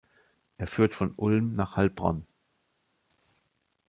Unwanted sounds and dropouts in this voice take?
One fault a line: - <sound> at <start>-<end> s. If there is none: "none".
none